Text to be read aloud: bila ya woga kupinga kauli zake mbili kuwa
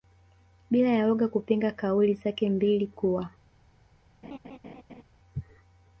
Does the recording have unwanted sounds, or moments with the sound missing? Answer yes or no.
yes